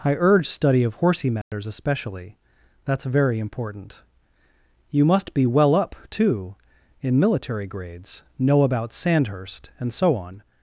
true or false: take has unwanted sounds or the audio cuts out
true